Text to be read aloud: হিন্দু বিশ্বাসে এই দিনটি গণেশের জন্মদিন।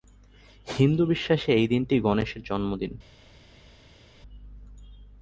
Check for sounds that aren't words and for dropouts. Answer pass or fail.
pass